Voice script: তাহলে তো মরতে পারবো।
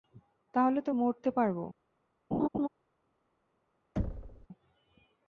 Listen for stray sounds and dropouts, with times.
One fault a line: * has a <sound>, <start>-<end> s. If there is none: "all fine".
* has a laugh, 2.3-2.7 s
* has a thud, 4.0-4.5 s